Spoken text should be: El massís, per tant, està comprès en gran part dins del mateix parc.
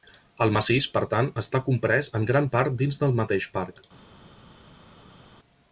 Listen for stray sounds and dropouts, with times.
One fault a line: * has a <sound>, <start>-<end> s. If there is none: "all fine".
all fine